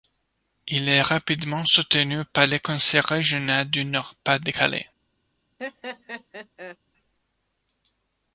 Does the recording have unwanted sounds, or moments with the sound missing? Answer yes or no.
yes